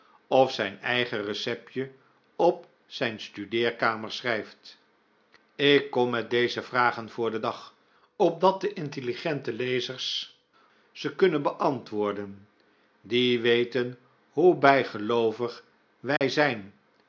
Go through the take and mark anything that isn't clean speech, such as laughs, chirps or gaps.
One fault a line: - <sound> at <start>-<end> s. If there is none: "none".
- dropout at 16.2-16.2 s